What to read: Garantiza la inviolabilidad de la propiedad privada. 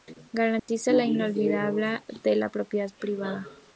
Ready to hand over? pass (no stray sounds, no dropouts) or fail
fail